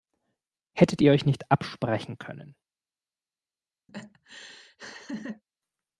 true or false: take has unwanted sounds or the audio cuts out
true